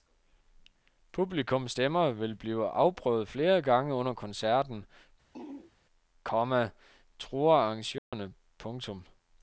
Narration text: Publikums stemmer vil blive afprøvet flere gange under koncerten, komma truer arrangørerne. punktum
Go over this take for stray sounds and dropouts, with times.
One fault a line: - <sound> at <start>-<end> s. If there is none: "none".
- throat clearing at 5.3-5.7 s
- dropout at 8.0-8.1 s